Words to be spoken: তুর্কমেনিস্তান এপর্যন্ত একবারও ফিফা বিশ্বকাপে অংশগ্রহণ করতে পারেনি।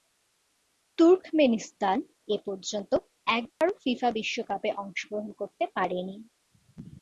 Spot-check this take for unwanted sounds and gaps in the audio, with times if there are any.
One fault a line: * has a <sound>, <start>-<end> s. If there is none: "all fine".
* has a dropout, 3.5-3.6 s